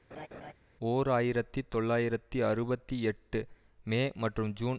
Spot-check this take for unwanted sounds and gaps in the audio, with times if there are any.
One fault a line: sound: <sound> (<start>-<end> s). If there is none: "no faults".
sound: laugh (0.1-0.5 s)